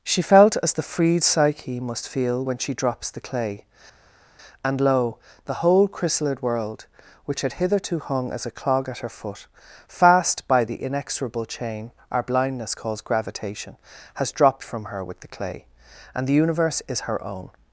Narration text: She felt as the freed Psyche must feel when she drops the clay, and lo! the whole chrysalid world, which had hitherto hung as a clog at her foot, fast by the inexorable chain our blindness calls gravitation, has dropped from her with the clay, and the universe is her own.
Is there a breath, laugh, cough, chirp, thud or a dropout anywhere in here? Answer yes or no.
no